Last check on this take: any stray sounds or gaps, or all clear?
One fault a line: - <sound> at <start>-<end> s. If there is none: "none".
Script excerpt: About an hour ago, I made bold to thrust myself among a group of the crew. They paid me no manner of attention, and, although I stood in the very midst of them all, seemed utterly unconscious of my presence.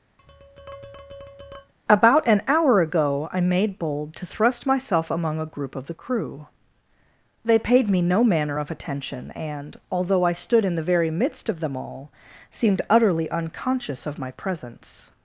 - tap at 0.2-1.7 s